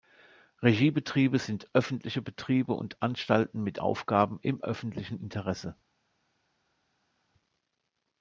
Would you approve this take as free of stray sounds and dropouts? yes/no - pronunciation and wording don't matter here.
yes